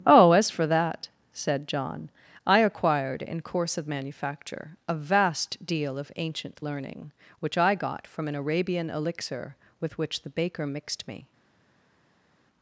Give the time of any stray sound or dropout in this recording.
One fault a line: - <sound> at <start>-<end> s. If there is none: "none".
none